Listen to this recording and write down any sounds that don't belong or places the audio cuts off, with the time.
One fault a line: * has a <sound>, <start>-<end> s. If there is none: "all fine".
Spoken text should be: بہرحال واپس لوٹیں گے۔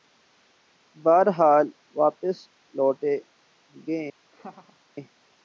* has a laugh, 4.3-4.8 s